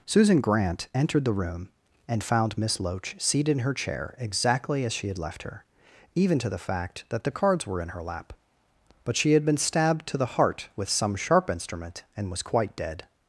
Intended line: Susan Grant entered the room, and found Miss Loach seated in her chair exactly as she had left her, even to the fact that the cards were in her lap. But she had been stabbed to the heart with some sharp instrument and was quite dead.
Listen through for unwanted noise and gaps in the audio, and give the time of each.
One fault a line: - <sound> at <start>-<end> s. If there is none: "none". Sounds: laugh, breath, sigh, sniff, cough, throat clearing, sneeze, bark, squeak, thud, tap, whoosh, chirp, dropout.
none